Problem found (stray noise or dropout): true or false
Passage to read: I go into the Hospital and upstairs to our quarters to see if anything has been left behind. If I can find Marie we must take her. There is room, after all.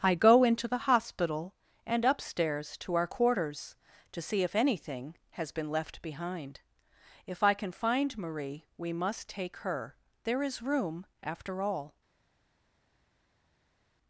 false